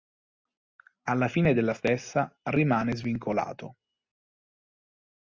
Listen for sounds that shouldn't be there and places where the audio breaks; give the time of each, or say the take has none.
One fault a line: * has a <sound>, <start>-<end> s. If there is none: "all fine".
all fine